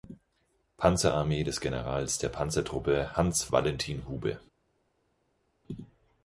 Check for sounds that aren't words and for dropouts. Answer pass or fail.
pass